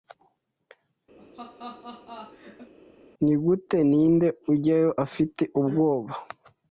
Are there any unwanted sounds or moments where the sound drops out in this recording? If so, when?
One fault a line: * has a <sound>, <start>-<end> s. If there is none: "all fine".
* has a laugh, 1.2-2.7 s